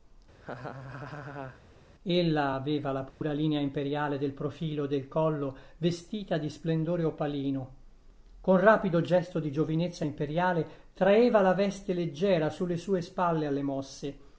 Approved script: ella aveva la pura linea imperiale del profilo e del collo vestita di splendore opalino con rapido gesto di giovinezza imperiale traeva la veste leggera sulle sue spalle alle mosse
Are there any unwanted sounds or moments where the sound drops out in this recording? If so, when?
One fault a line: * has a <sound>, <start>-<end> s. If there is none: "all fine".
* has a laugh, 0.3-1.6 s
* has a dropout, 3.1-3.2 s